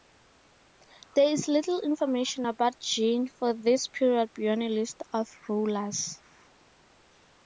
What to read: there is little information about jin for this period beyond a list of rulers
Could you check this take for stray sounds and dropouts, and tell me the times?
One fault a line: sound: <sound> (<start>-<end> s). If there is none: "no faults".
no faults